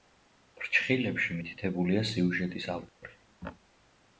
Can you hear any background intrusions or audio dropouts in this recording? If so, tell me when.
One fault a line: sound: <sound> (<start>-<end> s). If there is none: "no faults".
sound: dropout (2.9-3.0 s)